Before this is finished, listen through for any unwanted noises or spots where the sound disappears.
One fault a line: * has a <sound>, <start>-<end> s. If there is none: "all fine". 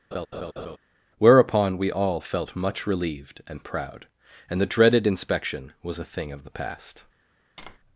* has a laugh, 0.1-0.8 s
* has a tap, 7.6-7.8 s